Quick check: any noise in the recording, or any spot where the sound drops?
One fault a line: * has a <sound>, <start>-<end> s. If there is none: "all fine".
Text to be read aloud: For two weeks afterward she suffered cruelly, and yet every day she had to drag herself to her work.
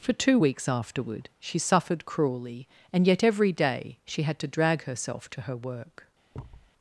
* has a thud, 6.3-6.7 s